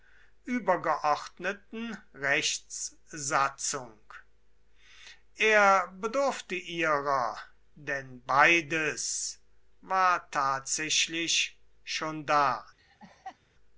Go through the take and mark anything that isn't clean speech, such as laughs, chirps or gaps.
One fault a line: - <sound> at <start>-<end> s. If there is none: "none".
- laugh at 12.8-13.4 s